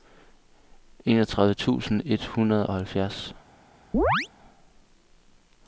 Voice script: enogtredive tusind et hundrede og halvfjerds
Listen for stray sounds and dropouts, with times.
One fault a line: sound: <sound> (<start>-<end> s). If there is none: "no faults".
sound: chirp (3.9-4.3 s)